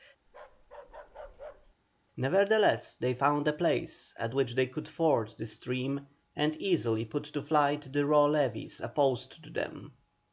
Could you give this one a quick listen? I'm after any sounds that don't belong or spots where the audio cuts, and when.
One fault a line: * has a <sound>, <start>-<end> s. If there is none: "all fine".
* has a bark, 0.3-1.7 s